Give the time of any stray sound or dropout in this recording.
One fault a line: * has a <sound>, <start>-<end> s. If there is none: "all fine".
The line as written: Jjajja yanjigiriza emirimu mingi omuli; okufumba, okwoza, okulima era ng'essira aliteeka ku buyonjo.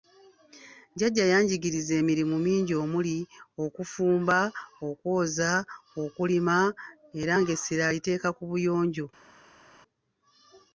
all fine